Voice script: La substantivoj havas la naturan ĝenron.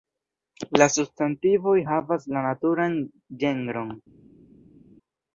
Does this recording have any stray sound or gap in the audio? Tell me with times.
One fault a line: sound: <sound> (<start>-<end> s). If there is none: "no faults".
no faults